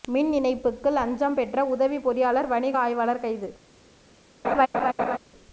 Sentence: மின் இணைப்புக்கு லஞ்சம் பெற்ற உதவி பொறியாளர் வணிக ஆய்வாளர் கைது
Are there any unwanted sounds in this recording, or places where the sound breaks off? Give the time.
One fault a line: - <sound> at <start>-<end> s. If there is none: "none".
- laugh at 4.4-5.2 s